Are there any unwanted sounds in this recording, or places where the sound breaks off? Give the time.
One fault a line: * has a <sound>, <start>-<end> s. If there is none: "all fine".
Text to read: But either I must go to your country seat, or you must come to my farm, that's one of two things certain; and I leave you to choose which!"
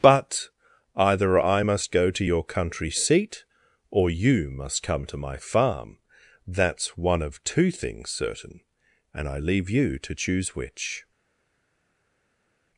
all fine